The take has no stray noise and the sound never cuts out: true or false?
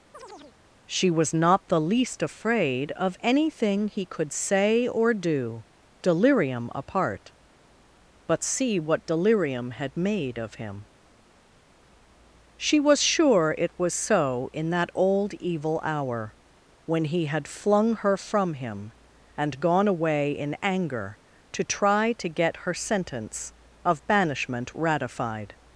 false